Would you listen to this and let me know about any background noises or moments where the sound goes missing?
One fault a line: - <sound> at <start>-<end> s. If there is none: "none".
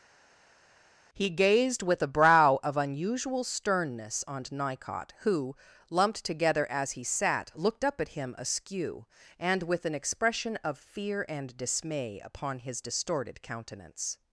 none